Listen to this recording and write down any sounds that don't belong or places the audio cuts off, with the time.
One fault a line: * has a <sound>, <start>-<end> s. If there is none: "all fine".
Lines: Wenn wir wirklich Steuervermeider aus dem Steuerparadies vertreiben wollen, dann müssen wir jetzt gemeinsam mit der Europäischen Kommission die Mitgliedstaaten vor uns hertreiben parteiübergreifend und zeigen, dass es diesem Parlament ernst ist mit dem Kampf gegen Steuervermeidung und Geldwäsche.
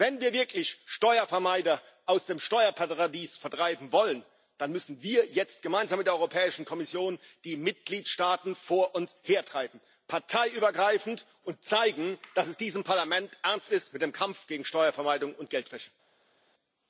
all fine